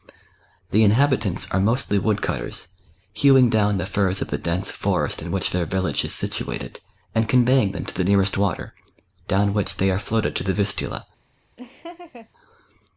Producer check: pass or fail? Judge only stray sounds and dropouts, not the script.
fail